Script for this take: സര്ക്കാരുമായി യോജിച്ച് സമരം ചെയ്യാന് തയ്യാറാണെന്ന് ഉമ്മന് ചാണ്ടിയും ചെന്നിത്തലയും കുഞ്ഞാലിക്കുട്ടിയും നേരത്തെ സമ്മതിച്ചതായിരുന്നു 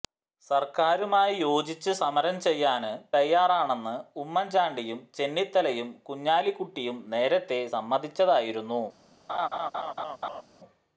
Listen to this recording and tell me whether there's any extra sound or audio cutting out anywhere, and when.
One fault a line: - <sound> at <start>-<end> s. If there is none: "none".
- laugh at 9.3-10.4 s